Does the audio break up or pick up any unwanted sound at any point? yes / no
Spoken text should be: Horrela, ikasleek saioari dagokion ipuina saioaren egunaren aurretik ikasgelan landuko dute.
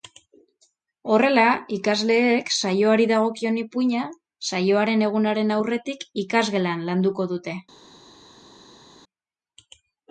no